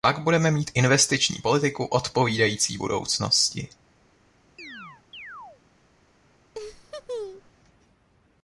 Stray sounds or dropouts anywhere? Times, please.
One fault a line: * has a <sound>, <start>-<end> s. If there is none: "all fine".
* has a chirp, 4.6-5.6 s
* has a laugh, 6.5-7.5 s